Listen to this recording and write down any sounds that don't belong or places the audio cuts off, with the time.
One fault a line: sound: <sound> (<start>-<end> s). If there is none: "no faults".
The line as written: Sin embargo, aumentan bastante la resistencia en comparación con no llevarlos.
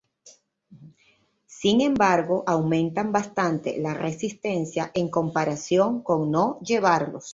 no faults